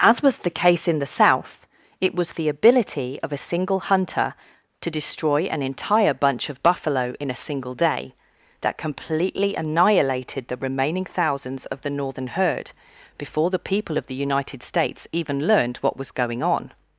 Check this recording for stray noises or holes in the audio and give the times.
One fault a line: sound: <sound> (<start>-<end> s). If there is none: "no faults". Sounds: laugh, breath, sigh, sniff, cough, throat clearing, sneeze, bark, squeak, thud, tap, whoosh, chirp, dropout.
no faults